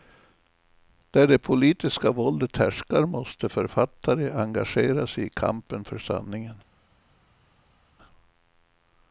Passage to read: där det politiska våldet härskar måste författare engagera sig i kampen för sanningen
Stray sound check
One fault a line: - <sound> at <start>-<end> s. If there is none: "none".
none